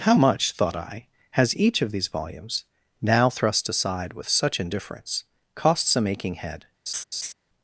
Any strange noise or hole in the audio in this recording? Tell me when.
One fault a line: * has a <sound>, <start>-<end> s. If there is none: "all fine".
* has a laugh, 6.9-7.3 s